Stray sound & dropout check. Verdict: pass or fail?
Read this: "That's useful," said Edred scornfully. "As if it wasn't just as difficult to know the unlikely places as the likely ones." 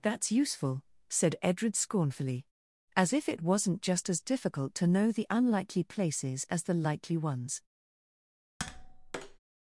fail